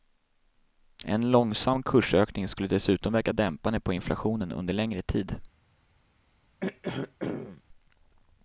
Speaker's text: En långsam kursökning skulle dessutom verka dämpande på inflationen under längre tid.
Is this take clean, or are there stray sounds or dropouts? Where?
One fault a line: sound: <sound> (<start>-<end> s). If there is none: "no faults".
sound: throat clearing (6.6-7.6 s)